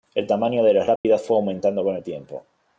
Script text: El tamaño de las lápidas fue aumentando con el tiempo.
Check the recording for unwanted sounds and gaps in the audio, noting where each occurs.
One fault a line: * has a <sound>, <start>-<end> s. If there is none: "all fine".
* has a dropout, 1.0-1.0 s